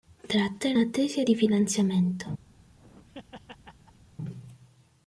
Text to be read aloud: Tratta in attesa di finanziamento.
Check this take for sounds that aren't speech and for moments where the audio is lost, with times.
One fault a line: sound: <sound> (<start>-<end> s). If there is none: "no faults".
sound: laugh (2.5-4.1 s)